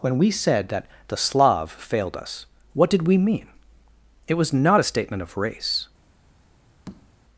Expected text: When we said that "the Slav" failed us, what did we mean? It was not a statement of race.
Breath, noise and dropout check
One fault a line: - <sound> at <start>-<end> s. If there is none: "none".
- tap at 6.9-7.1 s